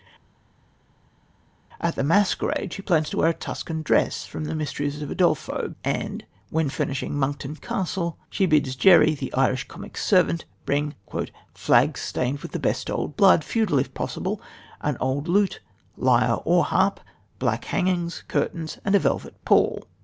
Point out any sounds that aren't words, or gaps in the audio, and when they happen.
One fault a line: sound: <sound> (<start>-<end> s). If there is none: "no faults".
no faults